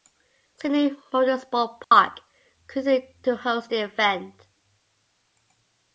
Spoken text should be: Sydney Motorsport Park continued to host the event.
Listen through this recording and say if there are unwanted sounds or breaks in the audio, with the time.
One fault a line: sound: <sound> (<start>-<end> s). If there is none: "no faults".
sound: dropout (1.8-1.9 s)